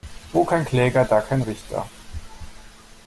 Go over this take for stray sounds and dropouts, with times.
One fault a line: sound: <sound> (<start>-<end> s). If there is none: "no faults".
no faults